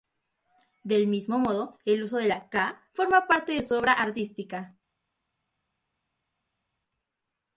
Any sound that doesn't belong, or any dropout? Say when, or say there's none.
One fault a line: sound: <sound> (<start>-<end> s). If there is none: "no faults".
no faults